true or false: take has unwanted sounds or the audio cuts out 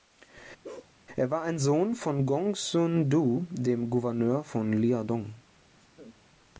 true